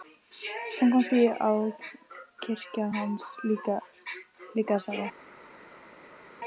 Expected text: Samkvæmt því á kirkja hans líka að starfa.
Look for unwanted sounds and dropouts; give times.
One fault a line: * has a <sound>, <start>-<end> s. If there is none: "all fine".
all fine